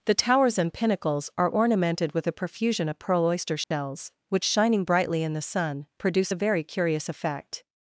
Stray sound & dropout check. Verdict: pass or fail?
fail